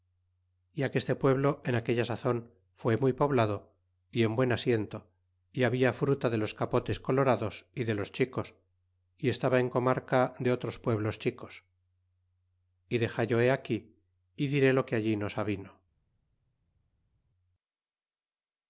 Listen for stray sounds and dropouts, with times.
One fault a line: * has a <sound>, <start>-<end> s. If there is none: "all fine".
all fine